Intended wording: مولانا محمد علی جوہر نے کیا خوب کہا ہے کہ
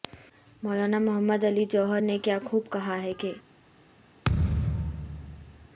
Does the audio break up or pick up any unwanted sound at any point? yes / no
yes